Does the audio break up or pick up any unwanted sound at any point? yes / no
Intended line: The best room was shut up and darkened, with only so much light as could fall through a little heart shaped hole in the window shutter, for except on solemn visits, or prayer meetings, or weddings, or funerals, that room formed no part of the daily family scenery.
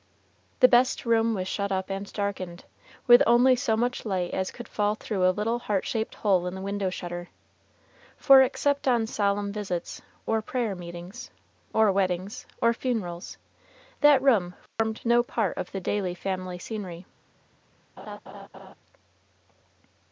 yes